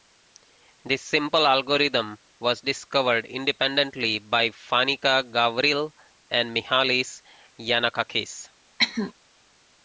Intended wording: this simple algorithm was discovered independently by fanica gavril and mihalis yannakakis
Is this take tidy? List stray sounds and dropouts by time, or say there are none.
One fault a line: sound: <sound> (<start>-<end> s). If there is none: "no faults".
sound: cough (8.8-9.1 s)